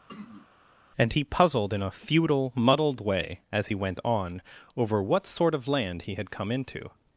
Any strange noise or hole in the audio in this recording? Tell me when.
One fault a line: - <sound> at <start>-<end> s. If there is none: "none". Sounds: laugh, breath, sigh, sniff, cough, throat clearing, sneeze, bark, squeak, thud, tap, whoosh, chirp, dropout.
- throat clearing at 0.1-0.5 s